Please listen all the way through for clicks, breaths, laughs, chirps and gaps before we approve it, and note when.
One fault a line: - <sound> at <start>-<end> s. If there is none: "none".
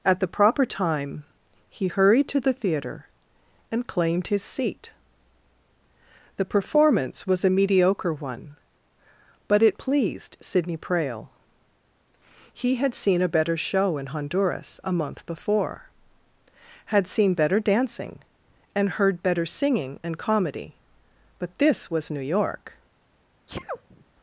- sneeze at 23.5-24.0 s